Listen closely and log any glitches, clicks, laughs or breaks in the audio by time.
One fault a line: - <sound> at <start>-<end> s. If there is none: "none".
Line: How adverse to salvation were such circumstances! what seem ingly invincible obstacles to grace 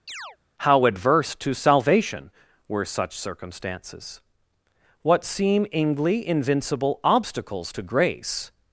- chirp at 0.1-0.4 s